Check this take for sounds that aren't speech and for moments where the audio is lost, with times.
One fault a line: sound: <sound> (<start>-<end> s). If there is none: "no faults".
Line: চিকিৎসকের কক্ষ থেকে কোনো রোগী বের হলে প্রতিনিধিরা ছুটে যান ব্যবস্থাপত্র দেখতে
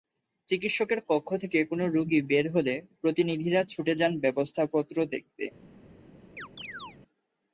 sound: chirp (6.4-7.0 s)